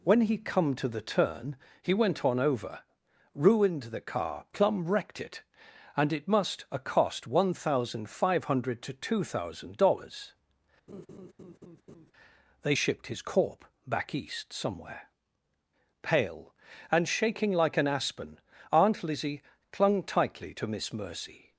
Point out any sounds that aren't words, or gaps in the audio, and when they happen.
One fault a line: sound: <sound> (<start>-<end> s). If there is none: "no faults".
sound: laugh (10.9-12.1 s)